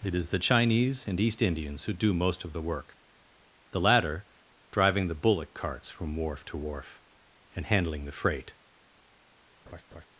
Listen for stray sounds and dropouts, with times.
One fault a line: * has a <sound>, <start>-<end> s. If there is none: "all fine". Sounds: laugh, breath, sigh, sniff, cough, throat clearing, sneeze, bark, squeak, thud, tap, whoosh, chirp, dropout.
* has a laugh, 9.7-10.1 s